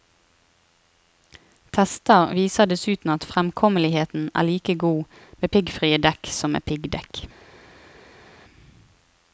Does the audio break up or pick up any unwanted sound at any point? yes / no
no